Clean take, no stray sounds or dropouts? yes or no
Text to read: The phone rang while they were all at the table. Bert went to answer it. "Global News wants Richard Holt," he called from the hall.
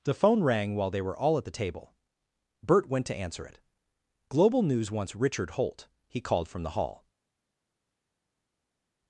yes